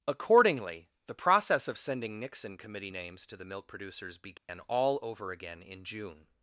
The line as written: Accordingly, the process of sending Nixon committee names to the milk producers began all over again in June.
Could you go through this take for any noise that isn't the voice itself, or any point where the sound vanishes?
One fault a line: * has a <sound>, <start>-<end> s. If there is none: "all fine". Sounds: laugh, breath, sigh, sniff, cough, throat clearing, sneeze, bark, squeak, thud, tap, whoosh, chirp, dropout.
* has a dropout, 4.4-4.5 s